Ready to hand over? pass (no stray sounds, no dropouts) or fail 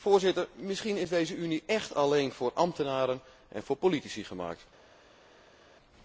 pass